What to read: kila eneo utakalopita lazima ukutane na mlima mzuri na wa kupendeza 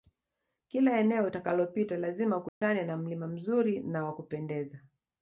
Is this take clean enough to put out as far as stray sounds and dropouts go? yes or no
no